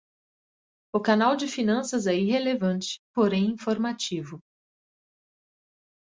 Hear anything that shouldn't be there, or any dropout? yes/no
no